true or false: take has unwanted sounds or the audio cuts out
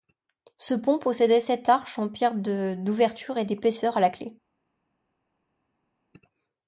false